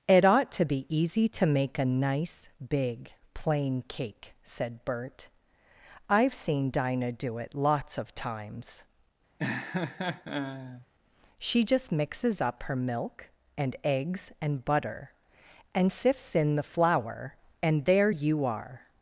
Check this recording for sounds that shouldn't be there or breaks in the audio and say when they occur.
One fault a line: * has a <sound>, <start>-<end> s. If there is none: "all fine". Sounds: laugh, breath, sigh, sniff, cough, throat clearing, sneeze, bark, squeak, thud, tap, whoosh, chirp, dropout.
* has a laugh, 9.4-10.9 s